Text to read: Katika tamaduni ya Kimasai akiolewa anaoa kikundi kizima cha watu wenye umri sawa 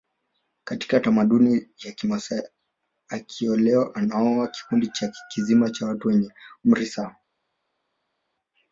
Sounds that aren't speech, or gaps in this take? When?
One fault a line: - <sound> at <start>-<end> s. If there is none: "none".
none